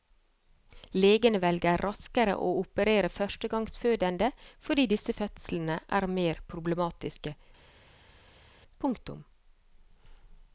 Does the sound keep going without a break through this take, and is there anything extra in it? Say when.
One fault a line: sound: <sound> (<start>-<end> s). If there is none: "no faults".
no faults